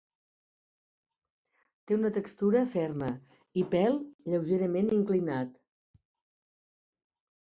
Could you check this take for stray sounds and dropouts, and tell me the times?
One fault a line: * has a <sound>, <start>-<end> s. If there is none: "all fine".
all fine